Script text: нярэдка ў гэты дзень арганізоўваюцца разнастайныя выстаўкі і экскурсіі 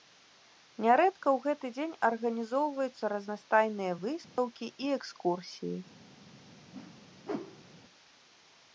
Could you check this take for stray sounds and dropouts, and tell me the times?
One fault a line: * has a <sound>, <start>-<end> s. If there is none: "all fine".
* has a dropout, 4.2-4.4 s
* has a whoosh, 6.7-7.8 s